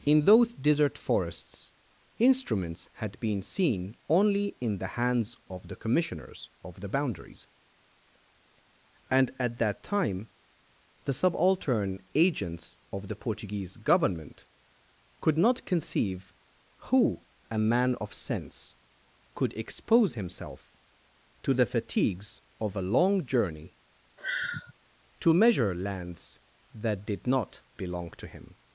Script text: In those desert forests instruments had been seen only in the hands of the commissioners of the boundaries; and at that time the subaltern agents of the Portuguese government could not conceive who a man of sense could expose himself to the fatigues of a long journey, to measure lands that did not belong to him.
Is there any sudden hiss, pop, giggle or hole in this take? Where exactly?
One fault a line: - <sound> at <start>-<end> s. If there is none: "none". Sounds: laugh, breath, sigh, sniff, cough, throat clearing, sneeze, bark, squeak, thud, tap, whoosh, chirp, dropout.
- sigh at 24.2-24.7 s